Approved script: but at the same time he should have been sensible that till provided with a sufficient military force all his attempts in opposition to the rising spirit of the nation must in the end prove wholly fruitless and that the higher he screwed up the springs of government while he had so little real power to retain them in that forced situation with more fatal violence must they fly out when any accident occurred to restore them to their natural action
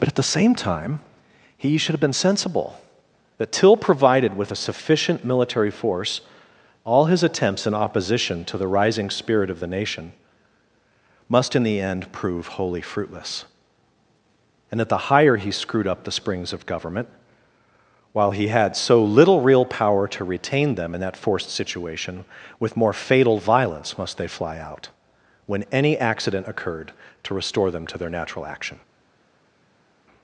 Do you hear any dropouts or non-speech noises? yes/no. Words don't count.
no